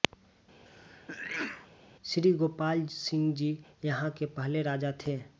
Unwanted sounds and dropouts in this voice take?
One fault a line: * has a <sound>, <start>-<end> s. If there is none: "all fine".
* has a sneeze, 0.7-1.7 s